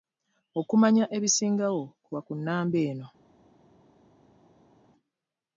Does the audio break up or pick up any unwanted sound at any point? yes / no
no